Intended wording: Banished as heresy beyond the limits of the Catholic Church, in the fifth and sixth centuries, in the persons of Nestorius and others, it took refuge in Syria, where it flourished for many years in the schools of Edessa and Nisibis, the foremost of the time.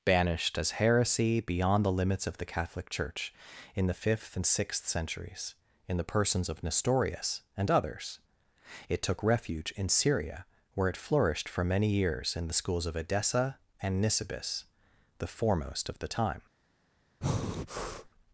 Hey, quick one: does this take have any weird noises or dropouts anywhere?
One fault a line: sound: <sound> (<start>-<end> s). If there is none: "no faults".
sound: breath (17.2-18.1 s)